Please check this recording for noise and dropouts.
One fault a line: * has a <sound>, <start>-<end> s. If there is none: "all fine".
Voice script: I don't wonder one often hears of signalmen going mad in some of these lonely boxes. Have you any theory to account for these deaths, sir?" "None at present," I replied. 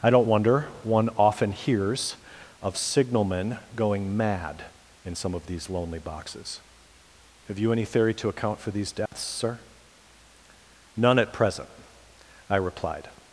* has a dropout, 9.1-9.1 s